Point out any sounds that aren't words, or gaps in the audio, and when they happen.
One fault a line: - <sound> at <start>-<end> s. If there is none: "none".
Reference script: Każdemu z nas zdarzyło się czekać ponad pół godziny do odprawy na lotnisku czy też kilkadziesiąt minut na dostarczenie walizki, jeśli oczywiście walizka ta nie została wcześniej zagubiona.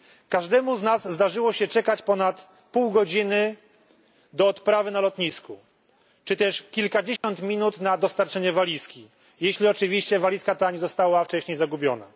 - dropout at 7.2-7.2 s